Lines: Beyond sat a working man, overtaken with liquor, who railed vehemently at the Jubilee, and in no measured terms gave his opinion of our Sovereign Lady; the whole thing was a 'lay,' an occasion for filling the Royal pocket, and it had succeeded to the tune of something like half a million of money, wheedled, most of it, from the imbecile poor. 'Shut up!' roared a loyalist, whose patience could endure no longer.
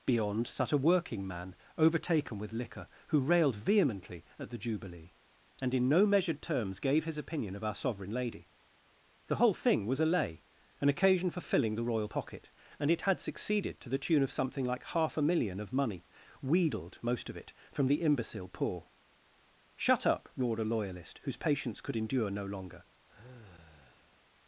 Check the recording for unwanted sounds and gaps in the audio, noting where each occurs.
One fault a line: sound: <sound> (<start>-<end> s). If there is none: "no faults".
sound: sigh (23.1-24.3 s)